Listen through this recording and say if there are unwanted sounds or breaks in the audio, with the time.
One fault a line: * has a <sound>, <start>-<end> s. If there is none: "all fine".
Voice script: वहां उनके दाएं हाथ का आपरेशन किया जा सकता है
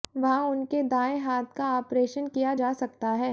all fine